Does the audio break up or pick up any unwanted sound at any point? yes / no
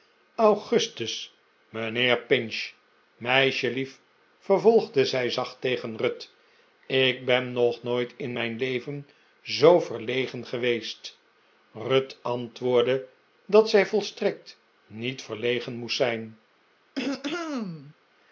yes